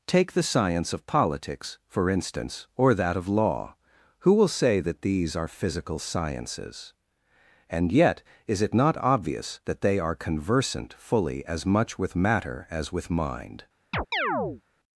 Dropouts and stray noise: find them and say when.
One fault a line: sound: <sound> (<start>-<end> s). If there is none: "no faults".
sound: chirp (13.9-14.6 s)